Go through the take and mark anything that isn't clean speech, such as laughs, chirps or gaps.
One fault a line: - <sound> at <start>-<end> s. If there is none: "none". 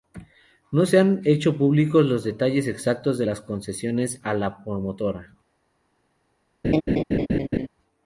- laugh at 6.6-7.7 s